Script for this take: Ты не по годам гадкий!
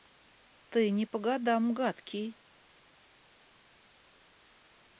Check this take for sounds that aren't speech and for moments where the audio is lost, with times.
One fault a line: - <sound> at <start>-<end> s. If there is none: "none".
none